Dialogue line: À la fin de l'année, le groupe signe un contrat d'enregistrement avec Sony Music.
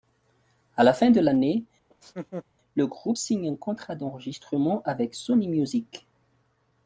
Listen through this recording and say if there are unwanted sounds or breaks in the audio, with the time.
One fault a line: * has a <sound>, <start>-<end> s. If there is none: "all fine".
* has a laugh, 1.9-2.4 s